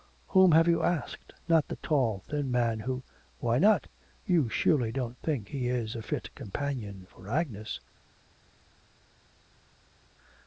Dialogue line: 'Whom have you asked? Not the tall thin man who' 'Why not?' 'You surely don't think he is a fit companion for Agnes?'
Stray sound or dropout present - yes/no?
no